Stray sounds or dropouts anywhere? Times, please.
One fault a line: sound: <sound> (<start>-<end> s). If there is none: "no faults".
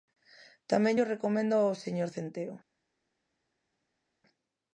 no faults